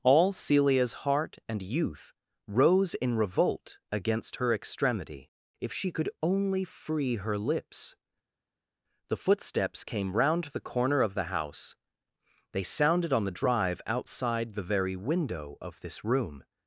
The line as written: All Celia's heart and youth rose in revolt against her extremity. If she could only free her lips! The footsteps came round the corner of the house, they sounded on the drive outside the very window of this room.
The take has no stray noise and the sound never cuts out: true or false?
true